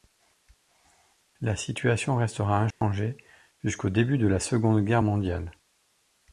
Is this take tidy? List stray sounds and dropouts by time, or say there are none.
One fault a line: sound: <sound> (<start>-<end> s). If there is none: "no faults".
sound: dropout (2.7-2.8 s)